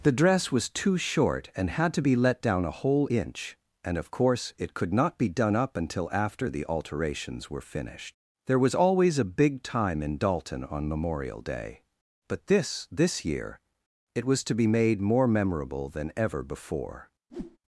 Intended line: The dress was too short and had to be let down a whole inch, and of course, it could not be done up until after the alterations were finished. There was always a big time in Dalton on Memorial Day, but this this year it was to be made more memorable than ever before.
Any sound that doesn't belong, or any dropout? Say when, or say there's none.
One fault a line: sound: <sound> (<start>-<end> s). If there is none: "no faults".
sound: whoosh (17.3-17.6 s)